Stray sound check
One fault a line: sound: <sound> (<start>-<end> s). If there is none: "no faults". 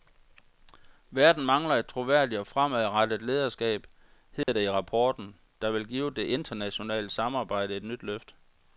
sound: dropout (4.4-4.5 s)